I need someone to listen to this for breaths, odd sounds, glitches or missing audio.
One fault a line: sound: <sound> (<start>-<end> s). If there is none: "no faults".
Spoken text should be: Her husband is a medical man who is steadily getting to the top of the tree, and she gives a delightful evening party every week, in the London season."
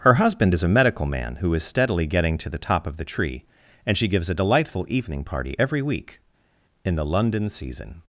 no faults